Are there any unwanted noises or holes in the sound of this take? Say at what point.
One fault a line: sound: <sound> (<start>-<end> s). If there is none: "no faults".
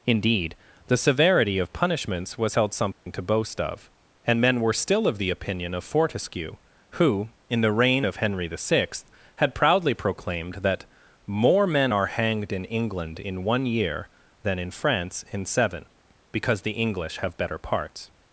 sound: dropout (2.9-3.1 s)